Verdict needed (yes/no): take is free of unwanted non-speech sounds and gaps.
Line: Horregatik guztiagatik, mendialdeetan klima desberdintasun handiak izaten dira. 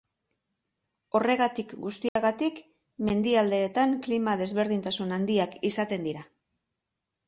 no